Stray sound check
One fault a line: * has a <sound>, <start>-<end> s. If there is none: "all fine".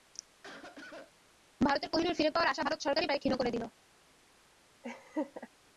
* has a cough, 0.4-1.1 s
* has a laugh, 4.8-5.5 s